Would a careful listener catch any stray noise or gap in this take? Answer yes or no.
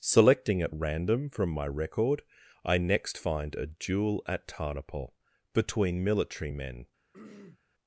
yes